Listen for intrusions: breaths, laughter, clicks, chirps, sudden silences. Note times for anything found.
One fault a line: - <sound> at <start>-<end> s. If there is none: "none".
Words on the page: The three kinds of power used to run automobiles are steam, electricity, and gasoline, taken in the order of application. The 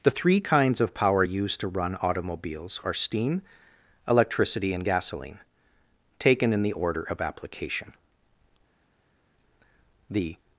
none